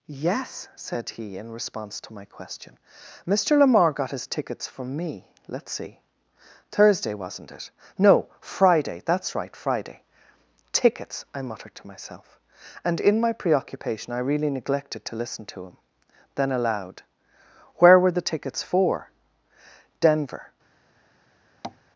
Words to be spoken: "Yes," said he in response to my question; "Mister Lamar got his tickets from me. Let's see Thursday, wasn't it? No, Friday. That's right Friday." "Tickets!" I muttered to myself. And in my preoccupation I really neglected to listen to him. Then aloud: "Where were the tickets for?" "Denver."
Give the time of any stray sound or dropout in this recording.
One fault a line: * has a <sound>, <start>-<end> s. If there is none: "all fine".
* has a tap, 21.6-21.8 s